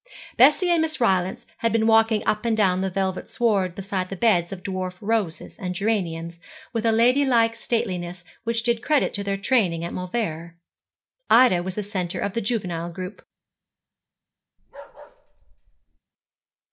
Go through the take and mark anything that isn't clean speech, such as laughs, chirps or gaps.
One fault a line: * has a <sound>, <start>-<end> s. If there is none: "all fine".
* has a bark, 14.6-16.0 s